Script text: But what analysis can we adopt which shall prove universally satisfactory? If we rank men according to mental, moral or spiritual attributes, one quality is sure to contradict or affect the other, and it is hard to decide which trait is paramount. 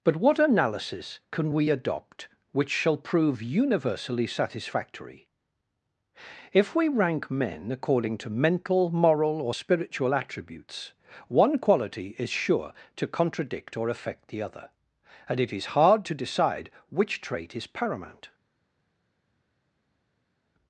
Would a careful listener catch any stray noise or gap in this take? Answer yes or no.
no